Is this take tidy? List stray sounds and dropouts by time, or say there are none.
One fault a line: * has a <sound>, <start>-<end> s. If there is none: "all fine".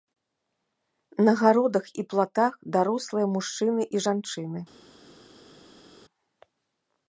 all fine